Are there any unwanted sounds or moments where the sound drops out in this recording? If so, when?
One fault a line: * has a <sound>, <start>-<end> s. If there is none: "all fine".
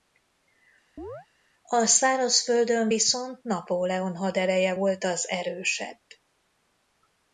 * has a chirp, 1.0-1.3 s